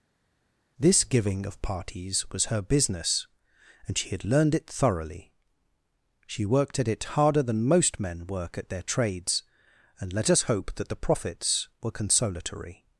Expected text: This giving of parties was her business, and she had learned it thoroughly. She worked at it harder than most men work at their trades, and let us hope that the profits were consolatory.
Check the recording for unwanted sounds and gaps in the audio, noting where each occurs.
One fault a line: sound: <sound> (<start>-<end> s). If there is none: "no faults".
no faults